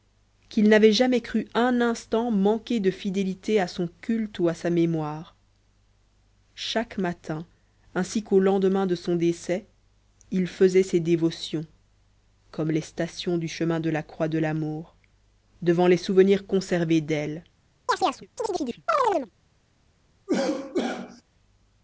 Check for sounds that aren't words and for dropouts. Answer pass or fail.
fail